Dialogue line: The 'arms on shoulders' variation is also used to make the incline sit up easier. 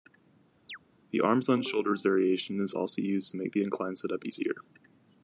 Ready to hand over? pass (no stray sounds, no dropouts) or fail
fail